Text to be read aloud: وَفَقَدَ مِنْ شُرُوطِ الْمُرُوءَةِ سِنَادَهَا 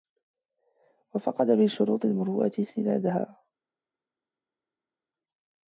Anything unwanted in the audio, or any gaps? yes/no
no